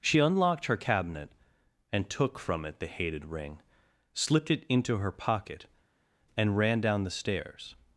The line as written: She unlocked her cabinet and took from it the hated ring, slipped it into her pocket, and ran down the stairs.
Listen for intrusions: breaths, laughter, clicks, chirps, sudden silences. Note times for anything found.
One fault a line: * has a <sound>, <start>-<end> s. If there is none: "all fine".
all fine